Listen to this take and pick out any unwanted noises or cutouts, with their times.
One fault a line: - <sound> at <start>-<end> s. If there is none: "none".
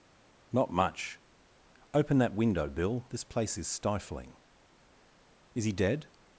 none